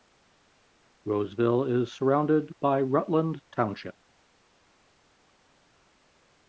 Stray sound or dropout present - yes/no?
no